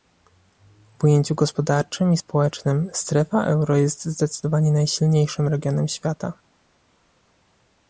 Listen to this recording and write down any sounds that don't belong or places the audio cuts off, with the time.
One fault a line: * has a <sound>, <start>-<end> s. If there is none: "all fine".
all fine